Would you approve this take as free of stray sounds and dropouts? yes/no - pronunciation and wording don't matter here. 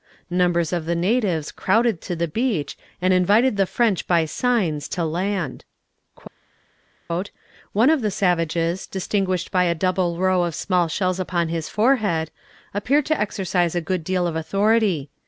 yes